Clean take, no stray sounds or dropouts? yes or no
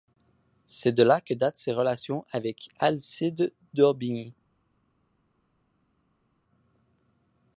yes